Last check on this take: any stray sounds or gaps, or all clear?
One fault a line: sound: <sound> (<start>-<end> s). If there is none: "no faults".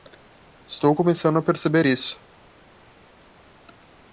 no faults